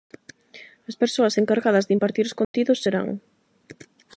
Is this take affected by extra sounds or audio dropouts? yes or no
yes